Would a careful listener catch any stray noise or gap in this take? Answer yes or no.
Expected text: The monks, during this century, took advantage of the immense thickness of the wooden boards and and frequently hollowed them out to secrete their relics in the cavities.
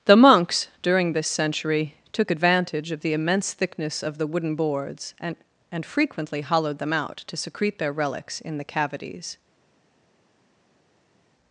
no